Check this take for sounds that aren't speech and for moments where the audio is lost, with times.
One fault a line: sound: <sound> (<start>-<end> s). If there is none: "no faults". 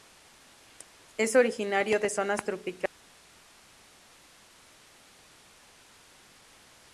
no faults